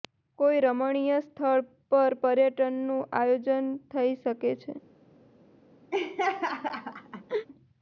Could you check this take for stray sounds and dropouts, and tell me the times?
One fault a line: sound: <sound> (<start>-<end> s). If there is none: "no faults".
sound: laugh (5.9-7.5 s)